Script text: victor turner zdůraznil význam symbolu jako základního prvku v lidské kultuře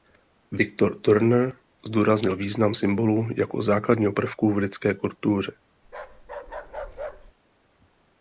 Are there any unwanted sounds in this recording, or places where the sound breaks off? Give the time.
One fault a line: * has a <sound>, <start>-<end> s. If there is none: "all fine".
* has a bark, 5.8-7.3 s